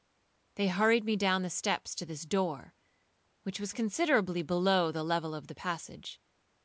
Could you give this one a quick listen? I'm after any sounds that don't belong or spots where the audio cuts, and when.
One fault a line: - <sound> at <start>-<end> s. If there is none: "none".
none